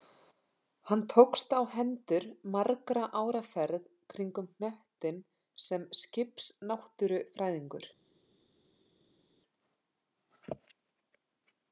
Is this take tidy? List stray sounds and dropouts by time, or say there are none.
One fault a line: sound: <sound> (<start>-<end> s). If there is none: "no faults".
no faults